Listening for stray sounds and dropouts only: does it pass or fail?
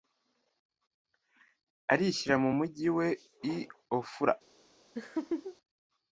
fail